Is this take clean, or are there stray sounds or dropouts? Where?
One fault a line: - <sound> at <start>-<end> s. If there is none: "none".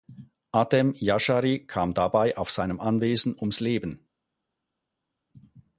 none